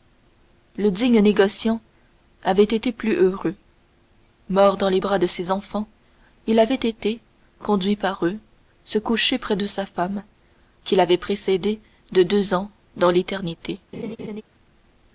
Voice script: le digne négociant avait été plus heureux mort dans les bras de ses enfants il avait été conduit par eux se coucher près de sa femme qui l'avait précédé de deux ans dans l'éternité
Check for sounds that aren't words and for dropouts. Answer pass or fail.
fail